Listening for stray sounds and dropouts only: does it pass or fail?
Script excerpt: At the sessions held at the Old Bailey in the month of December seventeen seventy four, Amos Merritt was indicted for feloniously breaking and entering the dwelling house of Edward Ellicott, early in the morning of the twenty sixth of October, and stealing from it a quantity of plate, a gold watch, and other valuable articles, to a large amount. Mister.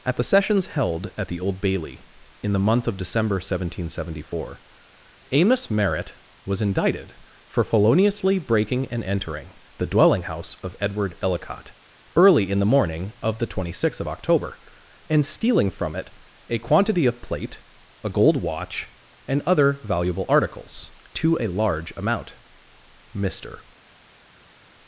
pass